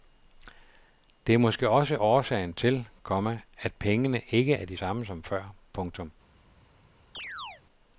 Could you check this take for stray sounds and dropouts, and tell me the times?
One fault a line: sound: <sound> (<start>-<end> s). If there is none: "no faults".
sound: chirp (7.1-7.6 s)